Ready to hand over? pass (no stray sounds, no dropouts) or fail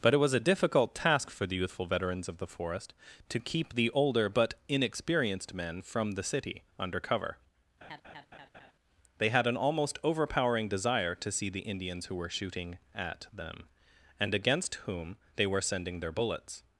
fail